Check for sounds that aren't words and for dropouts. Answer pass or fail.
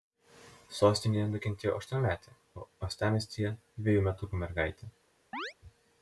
fail